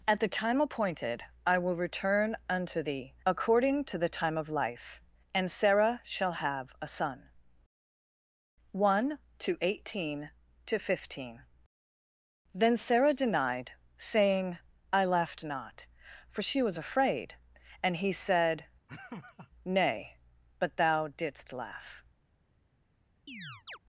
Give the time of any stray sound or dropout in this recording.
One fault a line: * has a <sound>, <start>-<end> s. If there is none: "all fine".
* has a laugh, 18.9-19.5 s
* has a chirp, 23.3-23.8 s